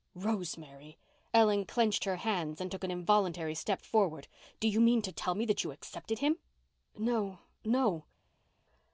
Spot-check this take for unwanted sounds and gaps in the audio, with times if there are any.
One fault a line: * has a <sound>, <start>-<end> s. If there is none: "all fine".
all fine